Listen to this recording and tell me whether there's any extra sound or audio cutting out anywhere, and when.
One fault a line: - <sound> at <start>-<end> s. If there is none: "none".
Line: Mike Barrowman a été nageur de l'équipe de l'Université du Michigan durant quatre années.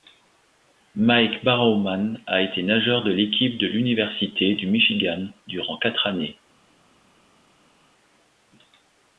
none